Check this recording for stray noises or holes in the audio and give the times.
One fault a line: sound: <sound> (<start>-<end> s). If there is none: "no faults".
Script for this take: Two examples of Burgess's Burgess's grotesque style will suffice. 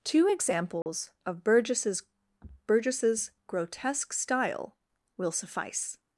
sound: dropout (0.8-0.9 s)